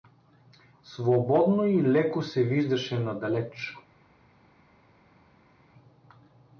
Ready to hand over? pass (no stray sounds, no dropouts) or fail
pass